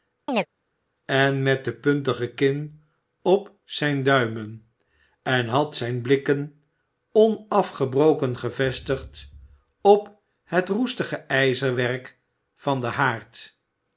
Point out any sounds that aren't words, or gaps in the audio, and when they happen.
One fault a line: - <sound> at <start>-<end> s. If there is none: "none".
- chirp at 0.3-0.5 s